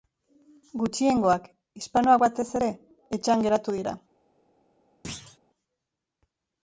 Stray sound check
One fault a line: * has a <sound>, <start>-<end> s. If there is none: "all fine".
* has a thud, 5.0-5.4 s